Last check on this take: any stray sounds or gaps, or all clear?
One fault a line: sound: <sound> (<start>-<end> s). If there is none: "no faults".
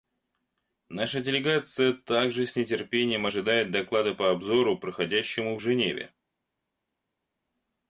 no faults